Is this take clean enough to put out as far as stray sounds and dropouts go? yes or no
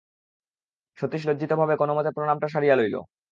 yes